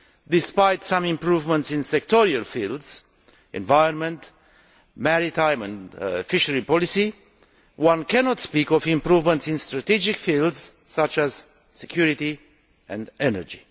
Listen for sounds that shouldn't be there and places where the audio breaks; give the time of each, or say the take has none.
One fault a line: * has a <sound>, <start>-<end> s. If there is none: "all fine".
all fine